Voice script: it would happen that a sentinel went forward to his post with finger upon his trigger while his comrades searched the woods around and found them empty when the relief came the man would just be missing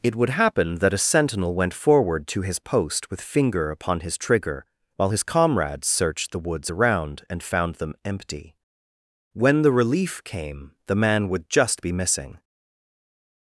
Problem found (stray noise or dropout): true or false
false